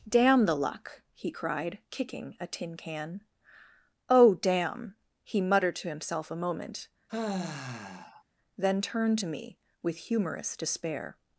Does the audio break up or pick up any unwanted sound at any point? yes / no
yes